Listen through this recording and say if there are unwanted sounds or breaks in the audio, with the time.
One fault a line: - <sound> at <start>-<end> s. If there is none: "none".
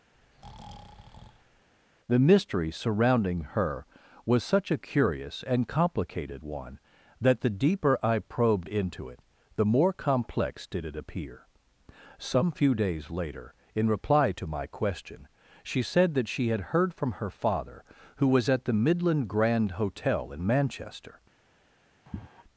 - breath at 0.1-1.7 s
- sigh at 22.1-22.4 s